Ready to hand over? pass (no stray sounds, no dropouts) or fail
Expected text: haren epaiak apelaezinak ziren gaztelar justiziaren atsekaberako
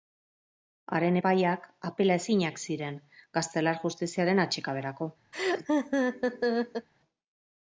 fail